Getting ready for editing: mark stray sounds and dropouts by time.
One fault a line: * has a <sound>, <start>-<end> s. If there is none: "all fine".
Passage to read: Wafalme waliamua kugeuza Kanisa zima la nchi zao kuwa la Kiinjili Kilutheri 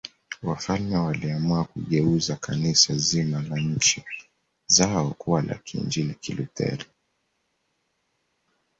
all fine